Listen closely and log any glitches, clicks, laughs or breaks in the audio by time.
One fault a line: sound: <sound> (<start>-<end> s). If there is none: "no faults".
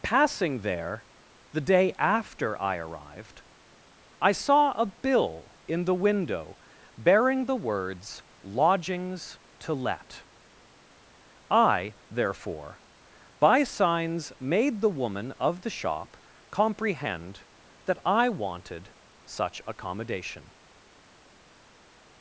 no faults